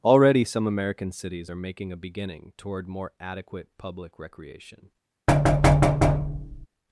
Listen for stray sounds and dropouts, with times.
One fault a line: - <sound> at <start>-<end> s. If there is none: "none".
- thud at 5.3-6.7 s